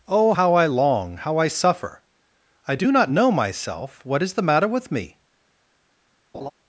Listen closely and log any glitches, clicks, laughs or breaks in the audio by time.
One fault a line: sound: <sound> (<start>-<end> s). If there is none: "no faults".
sound: laugh (6.3-6.5 s)